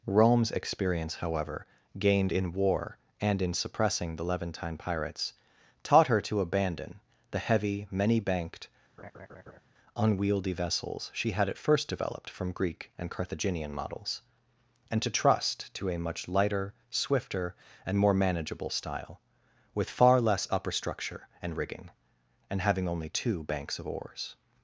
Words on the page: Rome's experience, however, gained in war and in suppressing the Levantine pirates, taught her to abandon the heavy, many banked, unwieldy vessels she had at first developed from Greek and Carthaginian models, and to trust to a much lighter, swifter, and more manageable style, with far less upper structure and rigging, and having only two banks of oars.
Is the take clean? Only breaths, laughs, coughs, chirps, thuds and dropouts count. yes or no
no